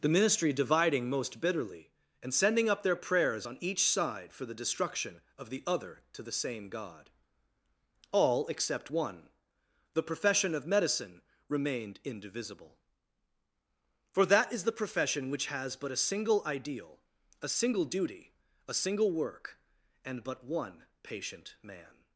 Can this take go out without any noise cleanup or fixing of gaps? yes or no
yes